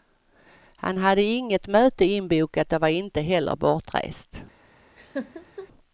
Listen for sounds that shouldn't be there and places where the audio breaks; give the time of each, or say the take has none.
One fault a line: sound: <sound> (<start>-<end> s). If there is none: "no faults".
sound: laugh (5.0-5.7 s)